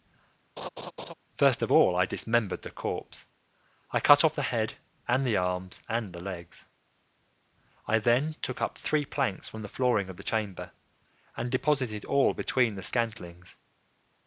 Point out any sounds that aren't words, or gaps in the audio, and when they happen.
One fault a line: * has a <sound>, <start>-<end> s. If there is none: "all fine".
* has a laugh, 0.6-1.1 s